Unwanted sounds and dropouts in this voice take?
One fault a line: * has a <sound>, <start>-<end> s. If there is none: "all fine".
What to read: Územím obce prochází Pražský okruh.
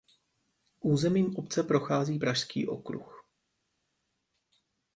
all fine